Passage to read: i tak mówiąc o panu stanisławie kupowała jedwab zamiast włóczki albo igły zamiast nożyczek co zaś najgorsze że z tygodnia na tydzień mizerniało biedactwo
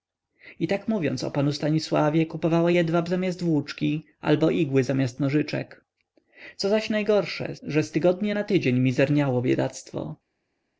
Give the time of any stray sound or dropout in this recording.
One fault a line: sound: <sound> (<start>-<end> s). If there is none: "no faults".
no faults